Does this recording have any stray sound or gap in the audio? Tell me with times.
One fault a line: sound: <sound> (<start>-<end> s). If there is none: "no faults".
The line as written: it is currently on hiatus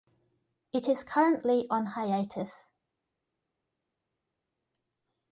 no faults